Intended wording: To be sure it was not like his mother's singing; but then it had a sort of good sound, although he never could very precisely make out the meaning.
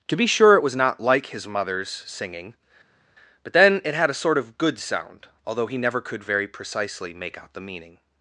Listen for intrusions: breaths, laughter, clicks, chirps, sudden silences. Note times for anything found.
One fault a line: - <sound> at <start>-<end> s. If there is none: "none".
none